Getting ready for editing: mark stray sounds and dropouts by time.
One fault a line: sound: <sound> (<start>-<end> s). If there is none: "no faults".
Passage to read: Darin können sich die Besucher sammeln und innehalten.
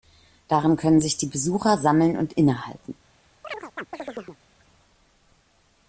sound: chirp (3.4-4.4 s)